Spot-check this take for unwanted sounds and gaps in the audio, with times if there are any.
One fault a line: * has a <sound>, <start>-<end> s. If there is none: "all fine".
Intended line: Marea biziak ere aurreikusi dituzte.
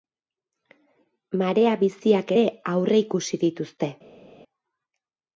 all fine